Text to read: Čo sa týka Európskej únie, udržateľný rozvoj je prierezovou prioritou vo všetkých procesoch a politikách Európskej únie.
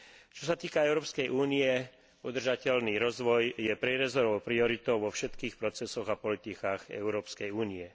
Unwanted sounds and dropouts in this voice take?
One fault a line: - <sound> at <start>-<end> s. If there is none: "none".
none